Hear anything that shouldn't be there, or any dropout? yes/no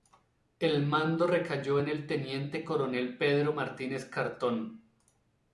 no